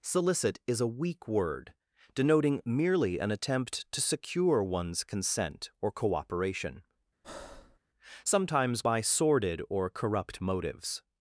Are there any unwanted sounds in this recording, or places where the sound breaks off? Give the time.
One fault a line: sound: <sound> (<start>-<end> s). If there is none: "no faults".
sound: breath (7.2-7.8 s)